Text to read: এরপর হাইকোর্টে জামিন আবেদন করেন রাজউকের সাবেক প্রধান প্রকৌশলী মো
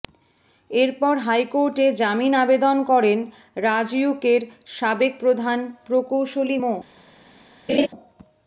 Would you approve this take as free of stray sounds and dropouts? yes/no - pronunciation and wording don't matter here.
no